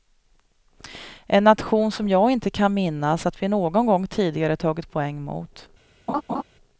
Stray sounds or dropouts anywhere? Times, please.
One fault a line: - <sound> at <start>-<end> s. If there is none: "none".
- laugh at 6.1-6.4 s